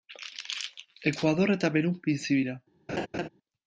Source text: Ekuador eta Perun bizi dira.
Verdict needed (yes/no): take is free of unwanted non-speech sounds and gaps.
no